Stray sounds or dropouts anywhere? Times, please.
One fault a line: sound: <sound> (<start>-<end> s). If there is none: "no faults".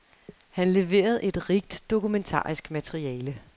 no faults